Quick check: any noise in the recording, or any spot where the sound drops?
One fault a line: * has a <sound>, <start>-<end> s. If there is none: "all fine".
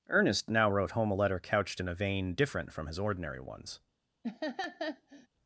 * has a laugh, 4.2-5.3 s